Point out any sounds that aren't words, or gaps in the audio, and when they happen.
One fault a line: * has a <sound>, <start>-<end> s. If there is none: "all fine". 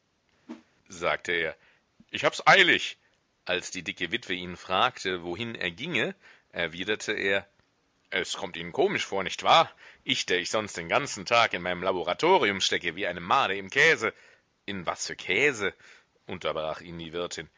* has a whoosh, 0.5-0.7 s